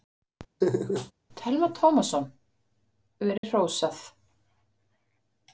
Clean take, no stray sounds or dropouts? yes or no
no